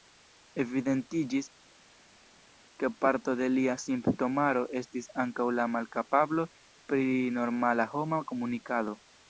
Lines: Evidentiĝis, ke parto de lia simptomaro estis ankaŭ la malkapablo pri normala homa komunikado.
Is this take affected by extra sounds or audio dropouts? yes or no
no